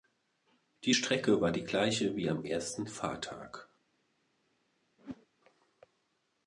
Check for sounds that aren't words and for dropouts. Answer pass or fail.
fail